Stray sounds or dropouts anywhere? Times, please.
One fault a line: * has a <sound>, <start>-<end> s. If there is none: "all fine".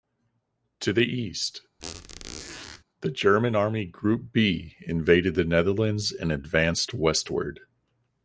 * has a squeak, 1.8-2.8 s